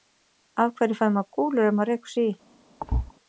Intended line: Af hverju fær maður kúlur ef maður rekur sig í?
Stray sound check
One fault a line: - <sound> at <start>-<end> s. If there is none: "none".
- thud at 2.8-3.1 s